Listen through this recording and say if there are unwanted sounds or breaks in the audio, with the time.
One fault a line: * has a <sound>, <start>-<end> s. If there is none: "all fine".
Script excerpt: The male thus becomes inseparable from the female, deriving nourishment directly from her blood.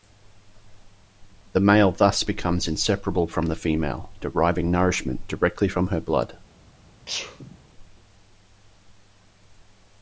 * has a sneeze, 7.1-7.6 s